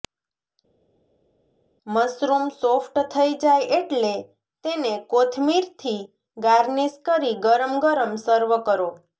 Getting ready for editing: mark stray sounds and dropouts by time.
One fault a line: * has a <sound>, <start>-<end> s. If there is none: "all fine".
all fine